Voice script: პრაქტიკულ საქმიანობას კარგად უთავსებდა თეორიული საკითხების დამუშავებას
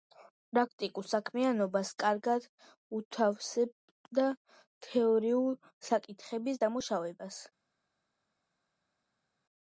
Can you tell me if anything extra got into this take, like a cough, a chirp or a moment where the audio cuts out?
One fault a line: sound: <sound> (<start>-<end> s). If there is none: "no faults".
no faults